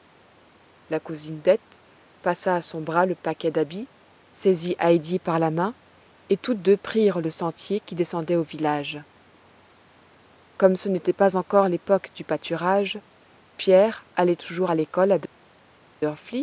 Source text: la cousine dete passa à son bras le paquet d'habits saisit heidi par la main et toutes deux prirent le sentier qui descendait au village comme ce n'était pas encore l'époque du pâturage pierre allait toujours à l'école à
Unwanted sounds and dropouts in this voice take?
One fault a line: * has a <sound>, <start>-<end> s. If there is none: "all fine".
all fine